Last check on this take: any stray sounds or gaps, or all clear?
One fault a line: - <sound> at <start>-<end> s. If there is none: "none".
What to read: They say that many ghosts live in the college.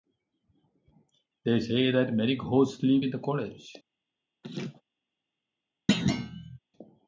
- laugh at 4.4-4.8 s
- thud at 5.9-6.6 s